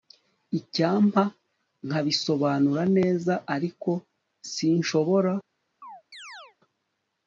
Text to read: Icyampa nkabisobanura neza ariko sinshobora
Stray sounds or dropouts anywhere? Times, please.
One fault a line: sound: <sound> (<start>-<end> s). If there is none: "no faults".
sound: chirp (5.8-6.6 s)